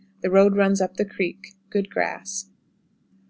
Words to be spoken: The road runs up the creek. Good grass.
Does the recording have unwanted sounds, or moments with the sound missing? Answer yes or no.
no